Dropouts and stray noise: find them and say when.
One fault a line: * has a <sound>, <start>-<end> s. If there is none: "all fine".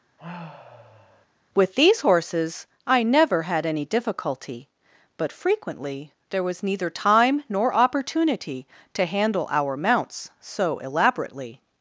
* has a sigh, 0.2-1.3 s